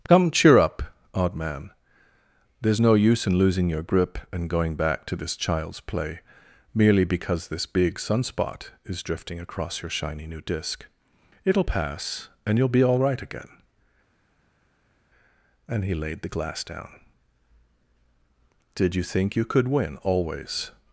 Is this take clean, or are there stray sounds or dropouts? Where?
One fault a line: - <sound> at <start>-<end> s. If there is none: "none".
none